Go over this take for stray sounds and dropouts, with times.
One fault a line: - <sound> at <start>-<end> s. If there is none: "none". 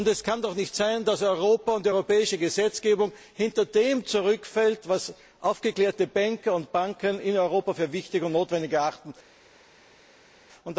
none